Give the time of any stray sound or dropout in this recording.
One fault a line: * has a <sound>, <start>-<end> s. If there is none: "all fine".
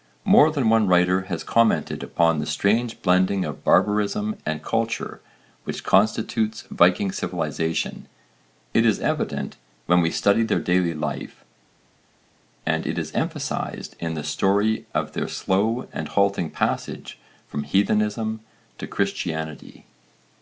all fine